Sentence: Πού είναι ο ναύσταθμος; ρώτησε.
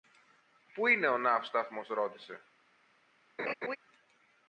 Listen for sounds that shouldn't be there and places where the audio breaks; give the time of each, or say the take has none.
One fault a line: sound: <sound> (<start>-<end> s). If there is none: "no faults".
sound: laugh (3.4-3.8 s)